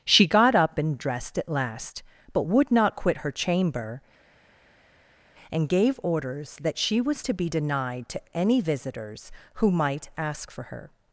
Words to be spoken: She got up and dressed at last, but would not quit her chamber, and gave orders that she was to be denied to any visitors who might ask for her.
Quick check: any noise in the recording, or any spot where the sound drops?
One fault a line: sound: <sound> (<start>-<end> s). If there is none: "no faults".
no faults